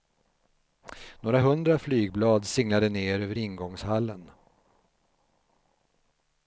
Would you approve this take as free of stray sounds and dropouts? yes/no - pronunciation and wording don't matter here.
yes